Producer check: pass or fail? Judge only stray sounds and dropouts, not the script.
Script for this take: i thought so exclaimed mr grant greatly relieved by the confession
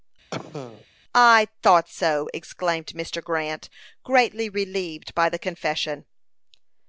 fail